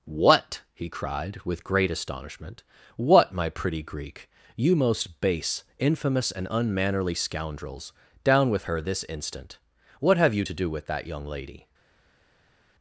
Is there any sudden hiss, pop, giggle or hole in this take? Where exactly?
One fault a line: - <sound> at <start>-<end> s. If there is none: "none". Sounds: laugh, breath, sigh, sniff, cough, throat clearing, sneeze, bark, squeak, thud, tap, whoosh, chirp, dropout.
none